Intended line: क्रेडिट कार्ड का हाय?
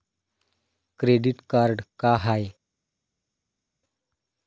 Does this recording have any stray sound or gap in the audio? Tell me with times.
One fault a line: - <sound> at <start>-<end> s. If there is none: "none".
none